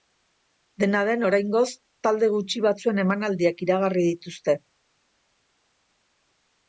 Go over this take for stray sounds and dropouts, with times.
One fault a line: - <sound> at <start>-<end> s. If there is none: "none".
none